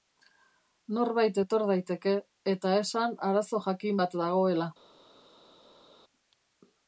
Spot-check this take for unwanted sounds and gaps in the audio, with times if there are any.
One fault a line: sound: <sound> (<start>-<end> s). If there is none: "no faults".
no faults